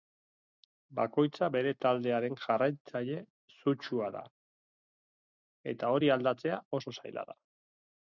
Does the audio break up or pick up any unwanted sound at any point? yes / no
no